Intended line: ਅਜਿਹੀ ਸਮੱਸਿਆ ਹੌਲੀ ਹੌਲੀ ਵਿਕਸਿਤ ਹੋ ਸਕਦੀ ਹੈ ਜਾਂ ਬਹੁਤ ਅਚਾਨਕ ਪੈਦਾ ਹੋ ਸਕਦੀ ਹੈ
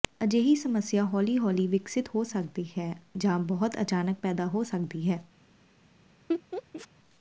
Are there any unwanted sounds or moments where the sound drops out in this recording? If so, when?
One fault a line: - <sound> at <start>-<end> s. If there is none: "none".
- laugh at 6.3-6.9 s